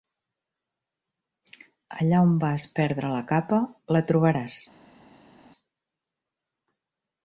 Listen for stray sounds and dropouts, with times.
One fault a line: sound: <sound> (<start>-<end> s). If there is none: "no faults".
no faults